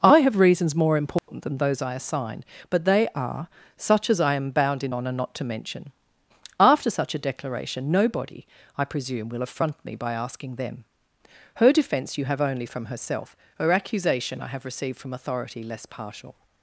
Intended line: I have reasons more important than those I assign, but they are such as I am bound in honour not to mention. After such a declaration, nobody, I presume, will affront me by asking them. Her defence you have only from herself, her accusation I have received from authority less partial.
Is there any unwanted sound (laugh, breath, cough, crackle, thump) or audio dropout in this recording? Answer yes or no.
yes